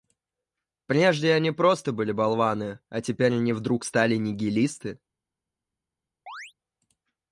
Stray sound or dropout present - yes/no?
yes